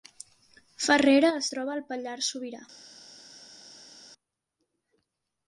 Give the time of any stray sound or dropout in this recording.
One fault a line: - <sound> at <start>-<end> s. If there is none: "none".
none